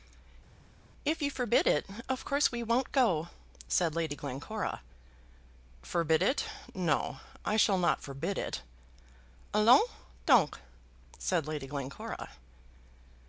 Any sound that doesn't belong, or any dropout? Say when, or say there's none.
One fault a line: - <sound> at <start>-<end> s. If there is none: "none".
none